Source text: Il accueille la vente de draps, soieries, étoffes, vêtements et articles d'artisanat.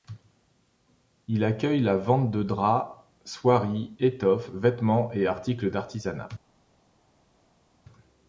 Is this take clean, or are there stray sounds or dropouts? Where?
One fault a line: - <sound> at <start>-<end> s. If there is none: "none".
none